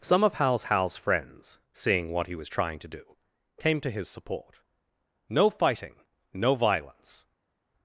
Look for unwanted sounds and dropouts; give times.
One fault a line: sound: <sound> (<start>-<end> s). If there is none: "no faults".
no faults